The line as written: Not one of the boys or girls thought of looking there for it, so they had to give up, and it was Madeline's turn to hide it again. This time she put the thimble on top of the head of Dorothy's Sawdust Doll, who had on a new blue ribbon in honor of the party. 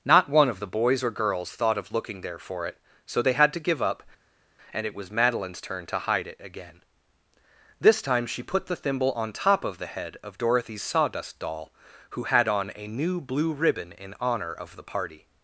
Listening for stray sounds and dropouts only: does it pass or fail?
pass